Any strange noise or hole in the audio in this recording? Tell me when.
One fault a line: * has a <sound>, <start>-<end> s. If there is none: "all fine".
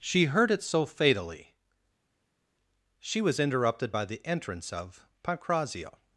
all fine